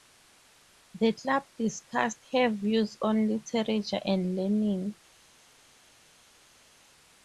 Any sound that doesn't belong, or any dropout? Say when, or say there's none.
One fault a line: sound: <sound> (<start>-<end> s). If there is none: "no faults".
no faults